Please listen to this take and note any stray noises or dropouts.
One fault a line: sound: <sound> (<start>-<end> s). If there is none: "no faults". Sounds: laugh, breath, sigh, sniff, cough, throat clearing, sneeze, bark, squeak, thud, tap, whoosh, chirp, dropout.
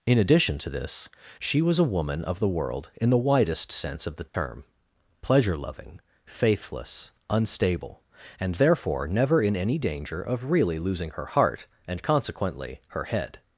sound: dropout (4.3-4.3 s)